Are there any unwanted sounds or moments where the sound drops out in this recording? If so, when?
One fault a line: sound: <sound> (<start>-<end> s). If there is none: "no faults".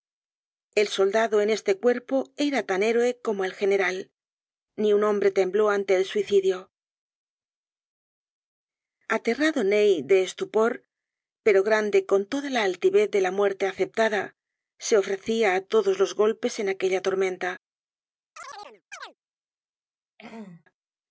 sound: chirp (18.4-19.2 s)
sound: throat clearing (20.2-20.6 s)